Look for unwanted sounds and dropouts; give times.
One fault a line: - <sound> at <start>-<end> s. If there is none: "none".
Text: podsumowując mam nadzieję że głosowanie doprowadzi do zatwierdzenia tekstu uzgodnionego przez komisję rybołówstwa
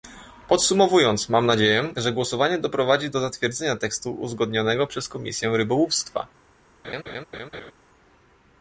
- laugh at 6.8-7.7 s